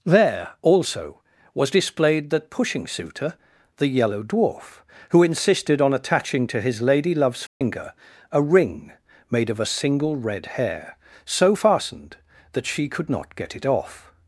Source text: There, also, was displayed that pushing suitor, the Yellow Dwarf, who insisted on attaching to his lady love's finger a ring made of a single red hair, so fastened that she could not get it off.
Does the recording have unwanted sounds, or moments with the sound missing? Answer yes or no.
yes